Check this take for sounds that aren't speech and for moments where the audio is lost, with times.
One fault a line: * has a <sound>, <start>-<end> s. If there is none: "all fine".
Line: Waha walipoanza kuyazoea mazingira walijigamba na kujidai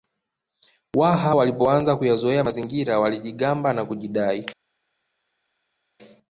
all fine